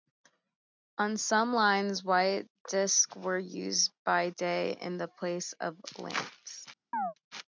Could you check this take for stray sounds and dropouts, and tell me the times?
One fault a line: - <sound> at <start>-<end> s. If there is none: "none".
- chirp at 6.9-7.1 s